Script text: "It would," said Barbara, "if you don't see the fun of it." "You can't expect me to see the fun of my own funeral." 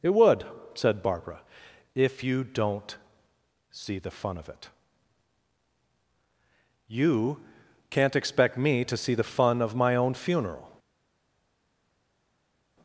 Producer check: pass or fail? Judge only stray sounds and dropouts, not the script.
pass